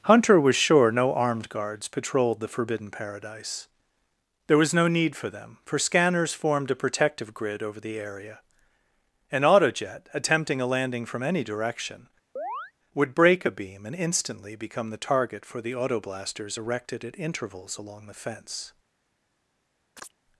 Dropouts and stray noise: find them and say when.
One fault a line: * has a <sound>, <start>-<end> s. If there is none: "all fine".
* has a chirp, 12.4-12.7 s
* has a chirp, 20.0-20.1 s